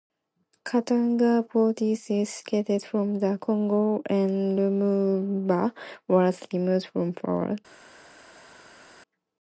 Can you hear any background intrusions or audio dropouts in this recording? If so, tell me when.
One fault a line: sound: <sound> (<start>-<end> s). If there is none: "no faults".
no faults